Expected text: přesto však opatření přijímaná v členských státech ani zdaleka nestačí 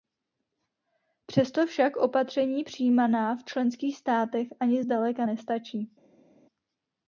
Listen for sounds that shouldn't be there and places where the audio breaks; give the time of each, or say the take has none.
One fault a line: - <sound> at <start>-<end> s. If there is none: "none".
none